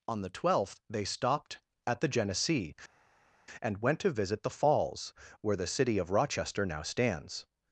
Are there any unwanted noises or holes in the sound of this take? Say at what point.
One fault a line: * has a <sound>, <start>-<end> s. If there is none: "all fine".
all fine